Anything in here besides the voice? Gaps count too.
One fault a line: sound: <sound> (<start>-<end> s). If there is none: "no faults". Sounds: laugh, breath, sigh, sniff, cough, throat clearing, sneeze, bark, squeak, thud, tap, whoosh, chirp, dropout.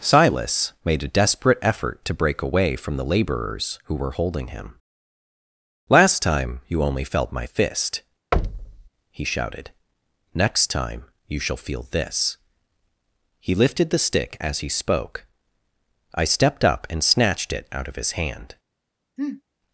sound: thud (8.3-8.9 s)
sound: sniff (19.2-19.4 s)